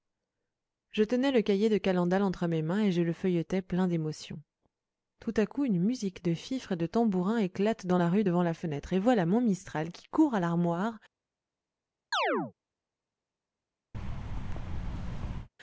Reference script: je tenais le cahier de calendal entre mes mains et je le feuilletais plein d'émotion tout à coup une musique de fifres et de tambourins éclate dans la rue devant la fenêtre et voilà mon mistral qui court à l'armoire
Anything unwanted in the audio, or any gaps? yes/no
yes